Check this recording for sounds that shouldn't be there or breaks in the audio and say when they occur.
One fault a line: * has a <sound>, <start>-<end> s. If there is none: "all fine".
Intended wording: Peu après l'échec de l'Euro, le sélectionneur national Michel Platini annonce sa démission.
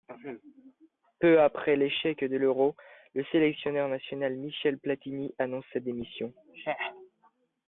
all fine